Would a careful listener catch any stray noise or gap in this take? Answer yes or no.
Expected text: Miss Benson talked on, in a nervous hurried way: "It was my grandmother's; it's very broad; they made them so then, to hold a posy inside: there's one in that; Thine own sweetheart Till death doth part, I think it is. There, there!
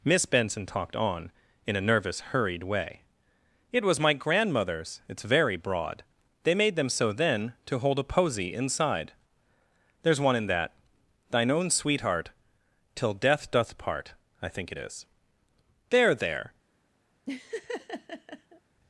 yes